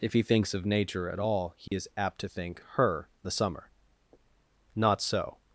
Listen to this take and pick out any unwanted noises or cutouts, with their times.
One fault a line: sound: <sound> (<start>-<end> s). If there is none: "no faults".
sound: dropout (1.7-1.7 s)